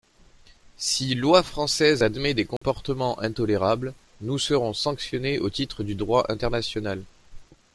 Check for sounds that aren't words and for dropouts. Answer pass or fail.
fail